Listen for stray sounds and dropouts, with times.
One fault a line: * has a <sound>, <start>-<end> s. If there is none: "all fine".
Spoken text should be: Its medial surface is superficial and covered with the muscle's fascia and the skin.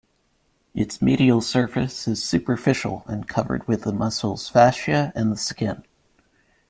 all fine